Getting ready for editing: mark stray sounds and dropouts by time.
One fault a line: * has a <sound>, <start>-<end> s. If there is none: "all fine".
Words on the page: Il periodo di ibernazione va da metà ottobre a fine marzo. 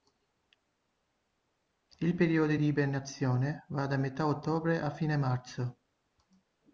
all fine